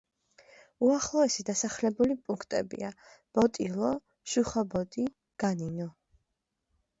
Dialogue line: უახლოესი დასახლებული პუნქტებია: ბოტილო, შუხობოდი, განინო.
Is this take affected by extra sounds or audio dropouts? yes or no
no